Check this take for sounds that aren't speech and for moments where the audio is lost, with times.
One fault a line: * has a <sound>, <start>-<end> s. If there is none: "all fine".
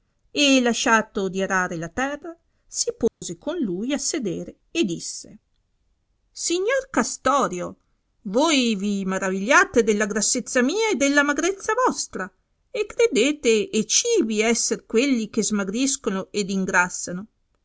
* has a dropout, 3.1-3.2 s